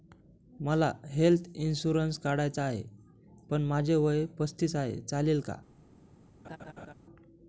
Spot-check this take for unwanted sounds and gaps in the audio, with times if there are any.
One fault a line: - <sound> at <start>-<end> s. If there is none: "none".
- laugh at 6.4-6.9 s